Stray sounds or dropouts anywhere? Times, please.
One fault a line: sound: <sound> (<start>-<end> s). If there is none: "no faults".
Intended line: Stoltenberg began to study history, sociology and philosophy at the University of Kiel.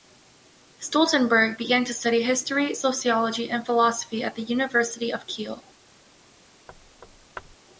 sound: thud (6.7-7.6 s)